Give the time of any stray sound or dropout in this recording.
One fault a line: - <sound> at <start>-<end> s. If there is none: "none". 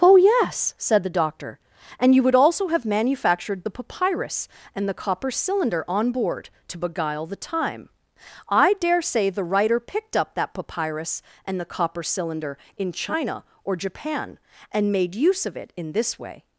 none